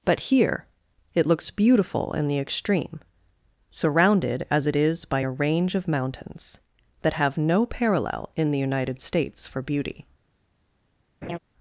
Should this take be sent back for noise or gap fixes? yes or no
yes